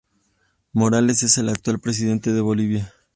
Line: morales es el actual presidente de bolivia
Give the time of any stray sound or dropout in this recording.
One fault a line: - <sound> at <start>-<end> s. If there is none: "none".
none